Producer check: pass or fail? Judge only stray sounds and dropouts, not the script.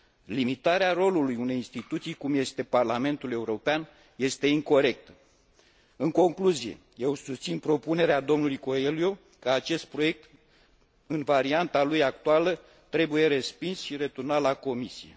pass